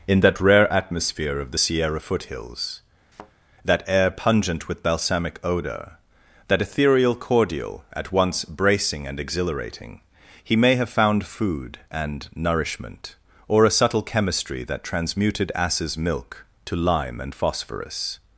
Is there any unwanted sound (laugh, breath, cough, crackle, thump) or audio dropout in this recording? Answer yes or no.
yes